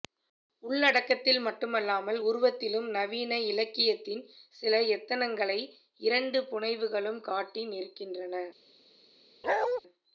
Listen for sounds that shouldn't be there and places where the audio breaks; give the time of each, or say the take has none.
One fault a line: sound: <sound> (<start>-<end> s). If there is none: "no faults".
sound: bark (9.4-9.8 s)